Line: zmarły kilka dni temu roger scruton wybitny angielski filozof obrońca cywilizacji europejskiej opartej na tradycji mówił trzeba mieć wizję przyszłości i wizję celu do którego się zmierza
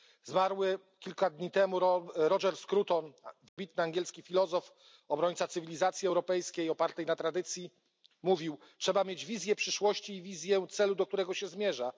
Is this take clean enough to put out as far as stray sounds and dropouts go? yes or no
no